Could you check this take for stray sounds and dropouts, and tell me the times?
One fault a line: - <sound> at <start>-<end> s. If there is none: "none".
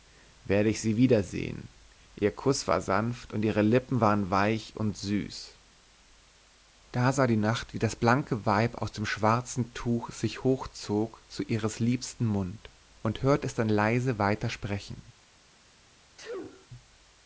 - sneeze at 16.2-16.7 s